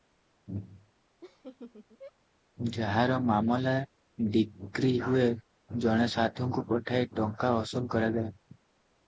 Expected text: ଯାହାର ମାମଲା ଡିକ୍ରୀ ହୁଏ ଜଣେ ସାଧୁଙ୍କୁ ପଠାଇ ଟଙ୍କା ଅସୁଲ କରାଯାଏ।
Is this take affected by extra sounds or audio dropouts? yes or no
yes